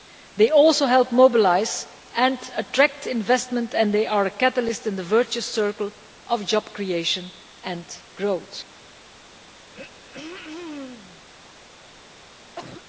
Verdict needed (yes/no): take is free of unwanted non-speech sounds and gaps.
no